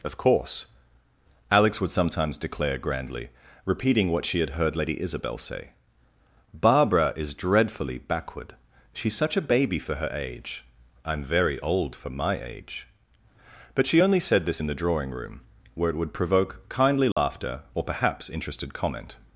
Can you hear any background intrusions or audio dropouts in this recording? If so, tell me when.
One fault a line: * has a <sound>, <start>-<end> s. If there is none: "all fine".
* has a dropout, 17.1-17.2 s